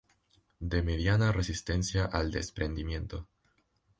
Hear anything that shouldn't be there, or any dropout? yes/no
no